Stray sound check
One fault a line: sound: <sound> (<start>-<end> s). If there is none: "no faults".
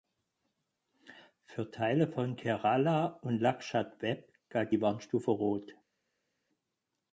no faults